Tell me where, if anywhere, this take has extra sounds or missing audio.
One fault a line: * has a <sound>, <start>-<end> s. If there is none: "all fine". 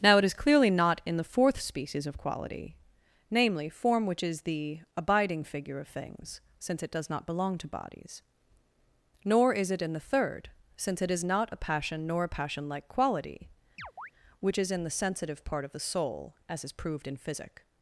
* has a chirp, 13.8-14.1 s